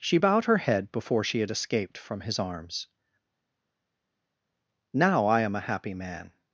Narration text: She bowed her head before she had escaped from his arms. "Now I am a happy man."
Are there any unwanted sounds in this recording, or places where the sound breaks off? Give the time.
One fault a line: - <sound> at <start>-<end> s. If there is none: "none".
none